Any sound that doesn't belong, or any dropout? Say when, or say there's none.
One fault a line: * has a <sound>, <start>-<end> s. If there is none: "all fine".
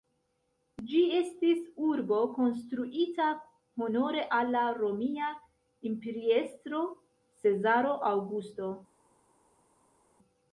all fine